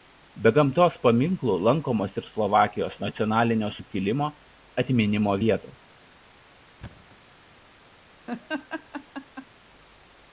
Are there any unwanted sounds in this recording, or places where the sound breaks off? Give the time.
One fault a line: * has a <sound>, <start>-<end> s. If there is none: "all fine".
* has a thud, 6.8-7.2 s
* has a laugh, 8.3-9.5 s